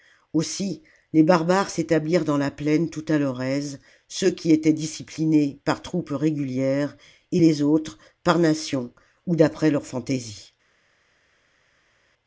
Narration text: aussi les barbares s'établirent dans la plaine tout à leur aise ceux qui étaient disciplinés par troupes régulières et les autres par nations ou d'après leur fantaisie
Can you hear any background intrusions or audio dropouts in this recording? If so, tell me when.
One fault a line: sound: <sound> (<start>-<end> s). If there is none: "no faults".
no faults